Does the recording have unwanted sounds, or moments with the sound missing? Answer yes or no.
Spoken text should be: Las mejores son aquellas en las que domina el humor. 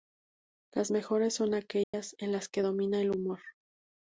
yes